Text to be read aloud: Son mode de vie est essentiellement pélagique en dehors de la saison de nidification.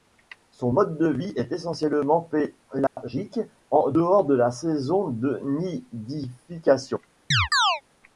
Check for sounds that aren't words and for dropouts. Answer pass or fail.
fail